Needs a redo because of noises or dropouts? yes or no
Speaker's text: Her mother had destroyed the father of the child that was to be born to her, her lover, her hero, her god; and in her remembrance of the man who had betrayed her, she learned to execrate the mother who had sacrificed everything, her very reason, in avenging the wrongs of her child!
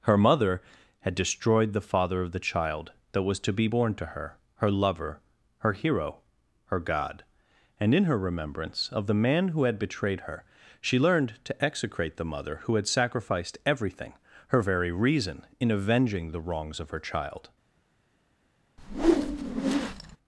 yes